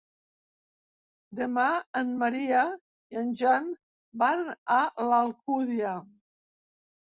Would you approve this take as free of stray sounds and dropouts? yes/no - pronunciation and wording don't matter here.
yes